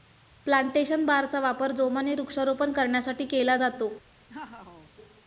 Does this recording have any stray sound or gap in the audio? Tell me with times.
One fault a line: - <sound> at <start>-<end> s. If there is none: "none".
- laugh at 4.3-4.9 s